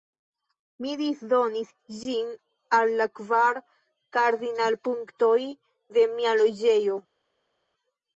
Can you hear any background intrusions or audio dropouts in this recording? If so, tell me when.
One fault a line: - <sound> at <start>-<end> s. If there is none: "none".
none